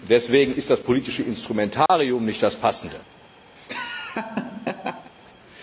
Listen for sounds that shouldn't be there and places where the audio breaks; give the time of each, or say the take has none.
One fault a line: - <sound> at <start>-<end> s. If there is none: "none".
- dropout at 1.9-1.9 s
- laugh at 3.6-5.1 s